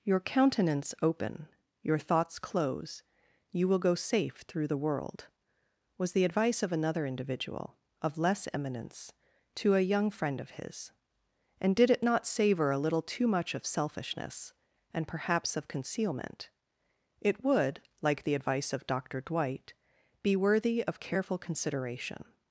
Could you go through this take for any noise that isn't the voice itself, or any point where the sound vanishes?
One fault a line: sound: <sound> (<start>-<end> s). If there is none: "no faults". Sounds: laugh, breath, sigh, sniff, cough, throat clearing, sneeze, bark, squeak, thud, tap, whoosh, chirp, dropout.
no faults